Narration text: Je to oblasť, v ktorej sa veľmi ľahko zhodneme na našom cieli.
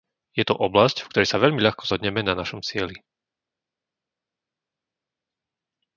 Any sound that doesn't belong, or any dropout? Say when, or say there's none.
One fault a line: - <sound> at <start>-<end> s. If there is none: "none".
none